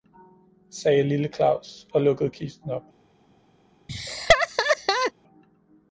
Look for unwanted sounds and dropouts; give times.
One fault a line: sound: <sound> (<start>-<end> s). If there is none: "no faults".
sound: laugh (3.9-5.1 s)